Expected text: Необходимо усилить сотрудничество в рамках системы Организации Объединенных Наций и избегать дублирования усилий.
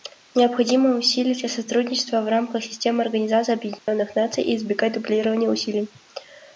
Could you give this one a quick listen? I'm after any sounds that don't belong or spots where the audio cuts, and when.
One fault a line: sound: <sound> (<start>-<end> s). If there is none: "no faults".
sound: dropout (3.8-3.9 s)